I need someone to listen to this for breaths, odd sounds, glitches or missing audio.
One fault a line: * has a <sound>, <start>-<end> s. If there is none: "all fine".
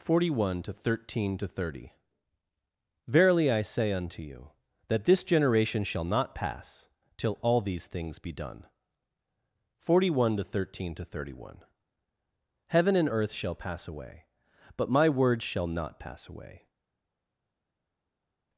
all fine